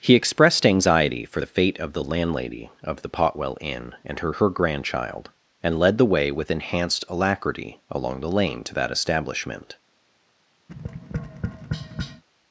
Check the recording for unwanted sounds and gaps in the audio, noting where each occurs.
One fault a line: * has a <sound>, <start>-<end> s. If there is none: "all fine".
* has a tap, 10.7-12.2 s